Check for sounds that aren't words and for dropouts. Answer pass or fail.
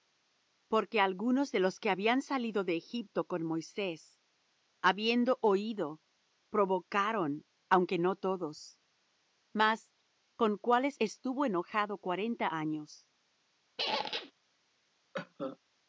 fail